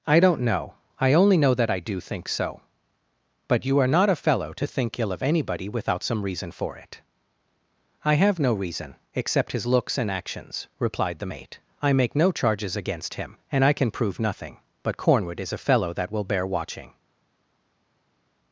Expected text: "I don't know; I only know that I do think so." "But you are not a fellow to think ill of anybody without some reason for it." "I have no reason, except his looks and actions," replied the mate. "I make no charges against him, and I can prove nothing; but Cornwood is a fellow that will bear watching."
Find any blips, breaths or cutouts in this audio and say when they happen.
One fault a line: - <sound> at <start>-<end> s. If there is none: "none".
none